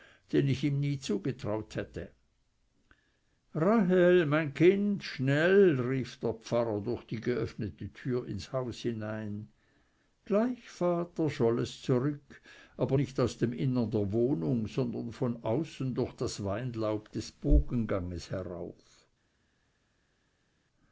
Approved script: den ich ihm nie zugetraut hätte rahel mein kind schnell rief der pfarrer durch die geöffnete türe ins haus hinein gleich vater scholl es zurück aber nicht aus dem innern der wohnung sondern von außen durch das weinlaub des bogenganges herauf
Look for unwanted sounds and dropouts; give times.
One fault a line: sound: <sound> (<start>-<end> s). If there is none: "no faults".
no faults